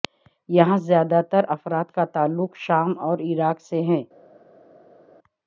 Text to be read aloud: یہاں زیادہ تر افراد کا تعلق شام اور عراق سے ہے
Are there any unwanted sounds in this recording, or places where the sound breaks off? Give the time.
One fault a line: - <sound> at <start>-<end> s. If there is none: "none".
none